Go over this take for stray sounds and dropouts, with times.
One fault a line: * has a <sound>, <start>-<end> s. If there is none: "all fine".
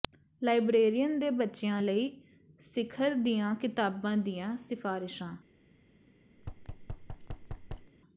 * has a thud, 6.4-7.9 s